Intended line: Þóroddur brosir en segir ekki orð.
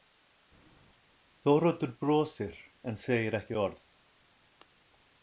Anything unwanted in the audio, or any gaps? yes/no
no